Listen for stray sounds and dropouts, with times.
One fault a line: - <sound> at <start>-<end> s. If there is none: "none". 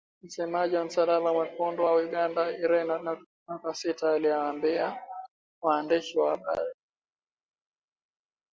none